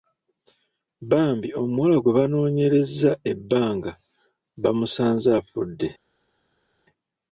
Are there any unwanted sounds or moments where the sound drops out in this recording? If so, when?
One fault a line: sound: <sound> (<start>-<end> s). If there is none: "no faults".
no faults